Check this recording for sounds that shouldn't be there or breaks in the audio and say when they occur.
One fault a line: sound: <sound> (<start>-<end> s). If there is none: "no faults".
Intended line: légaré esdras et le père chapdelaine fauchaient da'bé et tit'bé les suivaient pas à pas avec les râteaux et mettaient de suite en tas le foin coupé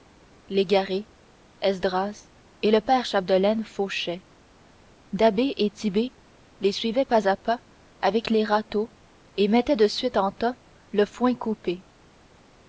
no faults